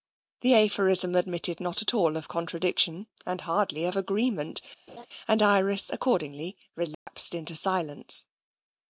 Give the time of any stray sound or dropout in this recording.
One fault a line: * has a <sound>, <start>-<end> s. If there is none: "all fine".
* has a laugh, 4.9-5.1 s
* has a dropout, 6.9-7.1 s